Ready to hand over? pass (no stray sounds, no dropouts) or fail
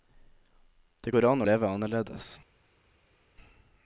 pass